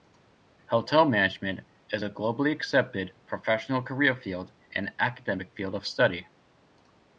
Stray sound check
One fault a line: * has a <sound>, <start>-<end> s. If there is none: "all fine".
all fine